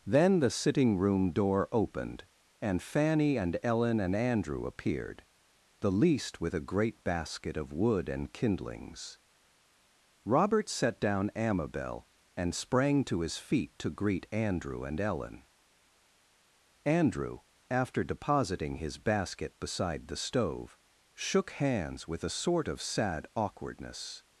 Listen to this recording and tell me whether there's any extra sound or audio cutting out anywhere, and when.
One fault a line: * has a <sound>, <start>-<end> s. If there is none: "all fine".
all fine